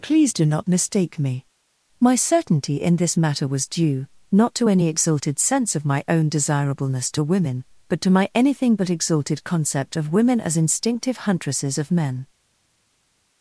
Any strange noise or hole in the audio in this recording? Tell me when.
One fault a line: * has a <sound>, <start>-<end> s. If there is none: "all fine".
all fine